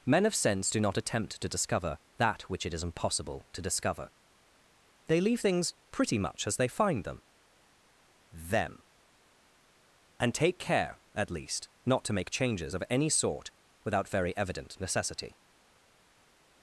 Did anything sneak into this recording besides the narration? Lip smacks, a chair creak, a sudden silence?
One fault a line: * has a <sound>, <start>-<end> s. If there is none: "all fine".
all fine